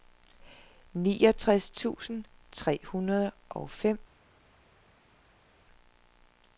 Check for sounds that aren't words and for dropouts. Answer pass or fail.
pass